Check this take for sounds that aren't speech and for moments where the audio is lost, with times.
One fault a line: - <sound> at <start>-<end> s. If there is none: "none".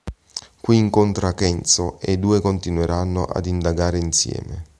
none